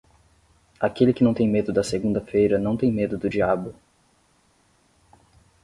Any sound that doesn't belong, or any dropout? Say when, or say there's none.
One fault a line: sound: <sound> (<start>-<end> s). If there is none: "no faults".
no faults